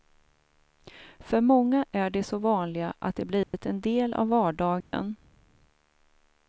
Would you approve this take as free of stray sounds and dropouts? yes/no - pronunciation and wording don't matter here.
no